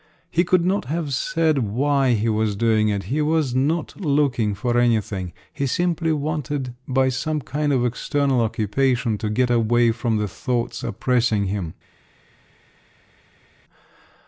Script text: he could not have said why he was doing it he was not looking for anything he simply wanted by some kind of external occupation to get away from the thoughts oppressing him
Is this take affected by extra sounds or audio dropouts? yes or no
no